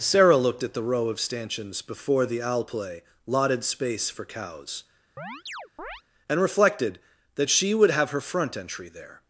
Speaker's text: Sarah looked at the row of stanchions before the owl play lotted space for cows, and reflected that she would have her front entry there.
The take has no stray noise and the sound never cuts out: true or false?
false